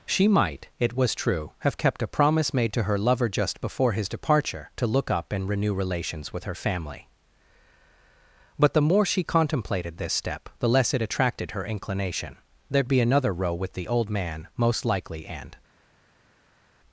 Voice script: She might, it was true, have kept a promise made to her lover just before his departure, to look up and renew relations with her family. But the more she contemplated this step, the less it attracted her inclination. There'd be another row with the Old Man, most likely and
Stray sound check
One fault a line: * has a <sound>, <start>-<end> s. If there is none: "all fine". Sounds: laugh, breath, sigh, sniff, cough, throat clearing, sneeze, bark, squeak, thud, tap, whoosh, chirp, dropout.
all fine